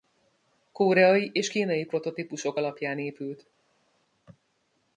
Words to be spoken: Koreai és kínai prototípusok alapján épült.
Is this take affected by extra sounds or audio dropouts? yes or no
no